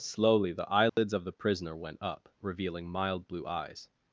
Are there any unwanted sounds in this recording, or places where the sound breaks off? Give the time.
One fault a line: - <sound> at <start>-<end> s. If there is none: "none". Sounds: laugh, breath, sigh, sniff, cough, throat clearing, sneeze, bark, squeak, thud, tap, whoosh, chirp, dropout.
- dropout at 0.9-1.0 s